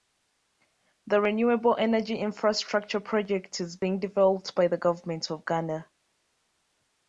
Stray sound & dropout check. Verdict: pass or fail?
pass